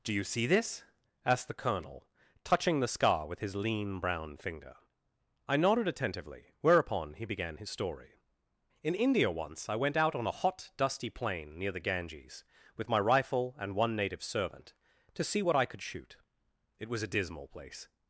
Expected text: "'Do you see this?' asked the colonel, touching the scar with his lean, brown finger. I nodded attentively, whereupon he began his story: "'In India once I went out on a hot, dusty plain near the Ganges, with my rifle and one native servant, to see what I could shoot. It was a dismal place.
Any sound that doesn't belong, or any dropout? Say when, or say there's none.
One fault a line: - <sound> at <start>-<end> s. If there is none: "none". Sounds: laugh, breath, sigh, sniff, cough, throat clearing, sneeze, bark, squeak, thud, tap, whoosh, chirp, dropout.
none